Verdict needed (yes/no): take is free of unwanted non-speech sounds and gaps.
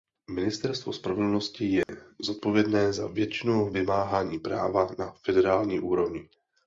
no